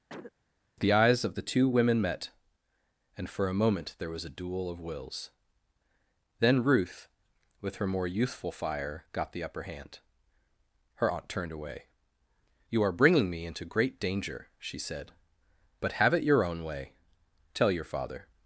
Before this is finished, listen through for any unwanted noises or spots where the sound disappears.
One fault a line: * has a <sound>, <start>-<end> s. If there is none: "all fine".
* has a cough, 0.1-0.3 s